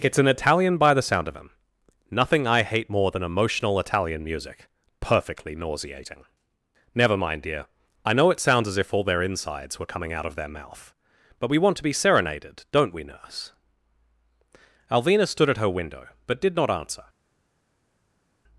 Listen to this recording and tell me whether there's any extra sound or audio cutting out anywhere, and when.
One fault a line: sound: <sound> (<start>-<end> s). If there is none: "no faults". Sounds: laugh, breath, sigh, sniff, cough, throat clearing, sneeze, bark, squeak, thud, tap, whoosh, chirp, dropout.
no faults